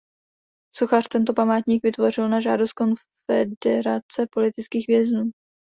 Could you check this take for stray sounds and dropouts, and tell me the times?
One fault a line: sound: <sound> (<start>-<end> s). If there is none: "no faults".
no faults